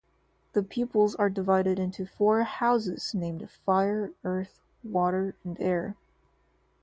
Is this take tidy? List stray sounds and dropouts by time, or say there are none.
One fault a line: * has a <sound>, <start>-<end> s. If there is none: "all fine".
all fine